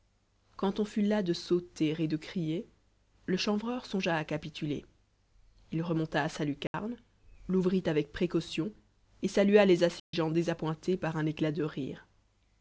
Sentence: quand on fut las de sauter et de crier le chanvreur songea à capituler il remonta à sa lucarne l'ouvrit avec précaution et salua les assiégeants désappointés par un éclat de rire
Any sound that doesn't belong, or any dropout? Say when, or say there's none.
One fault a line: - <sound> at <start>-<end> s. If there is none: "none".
- dropout at 6.7-6.7 s
- dropout at 10.0-10.1 s